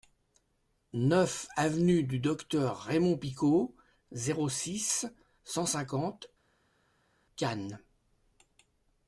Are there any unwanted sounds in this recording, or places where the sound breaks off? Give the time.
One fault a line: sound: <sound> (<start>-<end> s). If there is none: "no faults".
no faults